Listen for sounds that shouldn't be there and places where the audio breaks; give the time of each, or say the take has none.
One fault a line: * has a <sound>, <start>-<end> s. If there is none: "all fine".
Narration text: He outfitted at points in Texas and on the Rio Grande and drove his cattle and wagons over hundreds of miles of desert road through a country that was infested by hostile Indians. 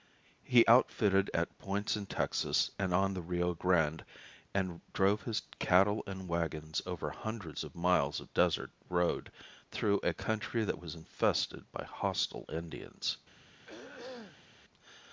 * has a throat clearing, 13.7-14.5 s